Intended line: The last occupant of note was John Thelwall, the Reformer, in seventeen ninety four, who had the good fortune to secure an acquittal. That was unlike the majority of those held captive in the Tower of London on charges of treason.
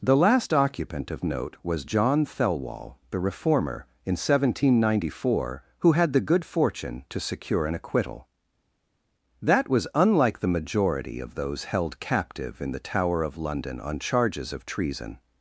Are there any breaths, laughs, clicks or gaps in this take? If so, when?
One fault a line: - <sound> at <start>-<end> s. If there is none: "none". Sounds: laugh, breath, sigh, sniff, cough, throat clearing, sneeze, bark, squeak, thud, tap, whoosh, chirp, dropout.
none